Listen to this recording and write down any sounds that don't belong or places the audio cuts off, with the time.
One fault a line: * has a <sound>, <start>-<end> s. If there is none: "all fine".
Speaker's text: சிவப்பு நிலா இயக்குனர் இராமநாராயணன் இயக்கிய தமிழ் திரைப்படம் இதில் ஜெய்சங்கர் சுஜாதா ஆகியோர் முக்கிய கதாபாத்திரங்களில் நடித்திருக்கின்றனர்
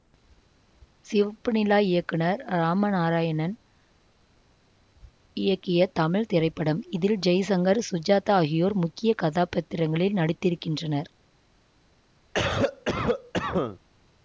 * has a cough, 12.3-13.8 s